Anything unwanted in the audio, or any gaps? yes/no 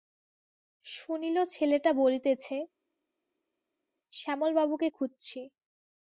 no